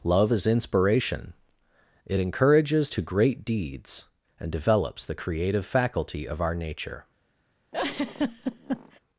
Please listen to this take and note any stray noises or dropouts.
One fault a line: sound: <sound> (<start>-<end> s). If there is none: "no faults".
sound: laugh (7.7-9.0 s)